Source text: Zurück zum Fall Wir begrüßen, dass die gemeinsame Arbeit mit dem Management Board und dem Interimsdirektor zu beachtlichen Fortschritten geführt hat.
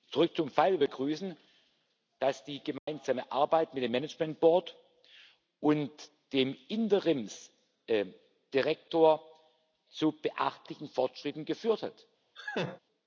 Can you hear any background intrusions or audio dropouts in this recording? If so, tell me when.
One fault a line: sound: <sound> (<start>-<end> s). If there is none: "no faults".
sound: dropout (2.8-2.9 s)
sound: laugh (12.3-12.8 s)